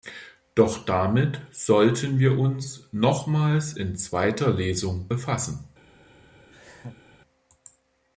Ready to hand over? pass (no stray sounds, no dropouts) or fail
fail